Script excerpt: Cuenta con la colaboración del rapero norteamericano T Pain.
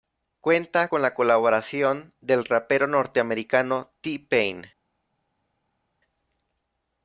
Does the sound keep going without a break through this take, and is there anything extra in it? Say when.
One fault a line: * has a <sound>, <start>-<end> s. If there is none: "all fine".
all fine